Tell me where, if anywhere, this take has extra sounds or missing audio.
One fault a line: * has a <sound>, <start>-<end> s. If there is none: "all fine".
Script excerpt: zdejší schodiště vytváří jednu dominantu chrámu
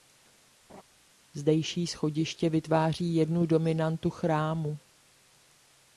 * has a laugh, 0.7-0.8 s